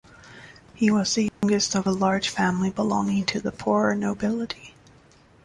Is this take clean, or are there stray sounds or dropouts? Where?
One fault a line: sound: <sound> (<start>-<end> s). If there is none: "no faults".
sound: dropout (1.3-1.4 s)